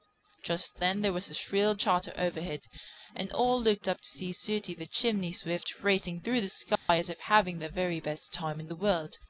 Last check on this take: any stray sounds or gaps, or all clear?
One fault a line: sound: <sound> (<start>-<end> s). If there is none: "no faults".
sound: dropout (6.8-6.9 s)